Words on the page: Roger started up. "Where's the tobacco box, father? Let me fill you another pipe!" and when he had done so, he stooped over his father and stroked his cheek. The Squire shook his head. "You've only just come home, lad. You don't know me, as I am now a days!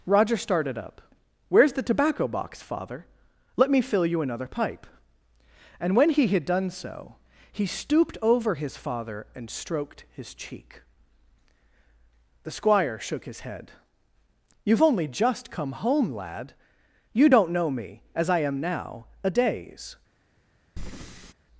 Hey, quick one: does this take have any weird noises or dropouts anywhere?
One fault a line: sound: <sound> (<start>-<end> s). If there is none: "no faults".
sound: breath (20.8-21.3 s)